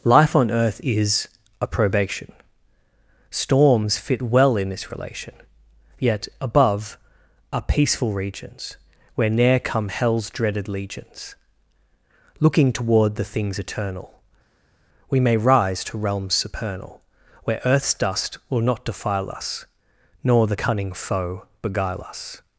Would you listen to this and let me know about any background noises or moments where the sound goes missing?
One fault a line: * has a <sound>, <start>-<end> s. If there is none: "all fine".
all fine